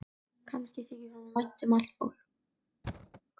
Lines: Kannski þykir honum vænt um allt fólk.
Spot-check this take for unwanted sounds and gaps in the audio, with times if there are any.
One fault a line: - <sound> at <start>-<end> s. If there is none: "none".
- thud at 2.8-3.2 s